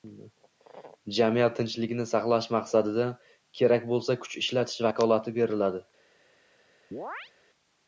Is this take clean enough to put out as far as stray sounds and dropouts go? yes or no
no